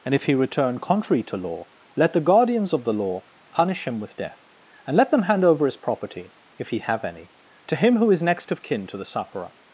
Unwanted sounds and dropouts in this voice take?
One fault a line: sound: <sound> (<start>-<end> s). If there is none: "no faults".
no faults